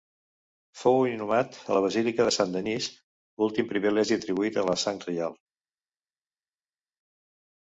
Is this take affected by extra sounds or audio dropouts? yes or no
no